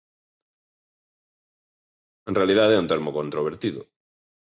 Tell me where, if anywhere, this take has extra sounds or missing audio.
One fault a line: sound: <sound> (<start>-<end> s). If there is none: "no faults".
no faults